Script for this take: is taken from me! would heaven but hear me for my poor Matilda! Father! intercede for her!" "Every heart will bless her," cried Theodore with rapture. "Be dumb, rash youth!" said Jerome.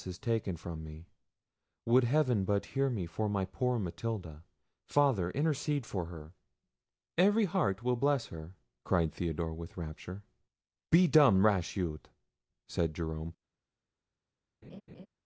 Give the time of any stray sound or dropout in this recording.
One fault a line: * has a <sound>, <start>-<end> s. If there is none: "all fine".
* has a laugh, 14.6-15.1 s